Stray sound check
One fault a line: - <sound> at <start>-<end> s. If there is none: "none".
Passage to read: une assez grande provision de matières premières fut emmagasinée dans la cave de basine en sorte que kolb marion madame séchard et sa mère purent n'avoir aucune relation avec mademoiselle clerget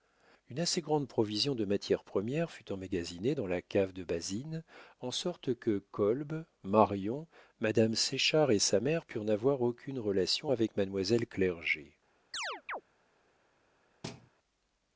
- chirp at 12.3-12.8 s
- thud at 14.0-14.3 s